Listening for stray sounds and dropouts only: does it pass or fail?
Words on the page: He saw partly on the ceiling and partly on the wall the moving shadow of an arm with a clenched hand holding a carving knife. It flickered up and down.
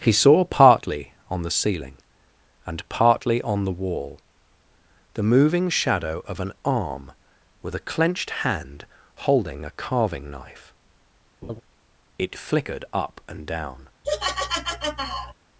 fail